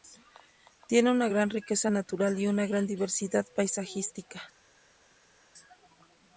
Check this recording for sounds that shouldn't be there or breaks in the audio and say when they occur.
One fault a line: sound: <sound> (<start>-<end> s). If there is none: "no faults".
no faults